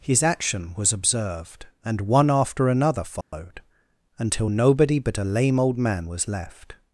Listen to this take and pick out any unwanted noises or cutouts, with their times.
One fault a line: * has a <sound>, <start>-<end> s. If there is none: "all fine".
* has a dropout, 3.2-3.3 s